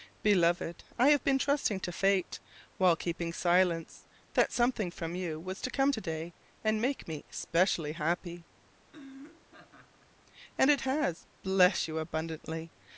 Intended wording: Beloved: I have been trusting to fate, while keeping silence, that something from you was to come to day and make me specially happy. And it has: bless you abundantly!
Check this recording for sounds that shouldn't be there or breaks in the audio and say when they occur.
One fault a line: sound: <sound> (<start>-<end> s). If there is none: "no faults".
sound: laugh (8.9-10.1 s)